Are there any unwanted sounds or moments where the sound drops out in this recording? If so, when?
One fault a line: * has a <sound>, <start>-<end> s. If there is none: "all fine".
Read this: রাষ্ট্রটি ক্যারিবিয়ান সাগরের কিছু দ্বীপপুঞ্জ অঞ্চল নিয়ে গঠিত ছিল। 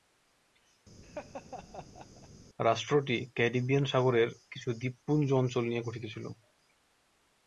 * has a laugh, 1.0-2.3 s